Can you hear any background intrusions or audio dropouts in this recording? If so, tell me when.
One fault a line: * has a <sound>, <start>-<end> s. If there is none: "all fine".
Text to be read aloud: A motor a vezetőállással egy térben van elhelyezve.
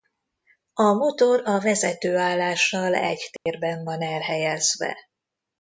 * has a dropout, 3.4-3.5 s